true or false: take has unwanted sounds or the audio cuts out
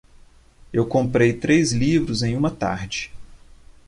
false